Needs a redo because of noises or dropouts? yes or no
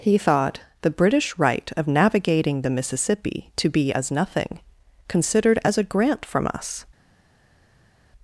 no